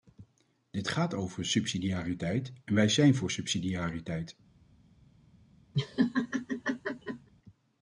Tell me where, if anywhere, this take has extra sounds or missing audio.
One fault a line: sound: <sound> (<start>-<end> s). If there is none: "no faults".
sound: laugh (5.7-7.3 s)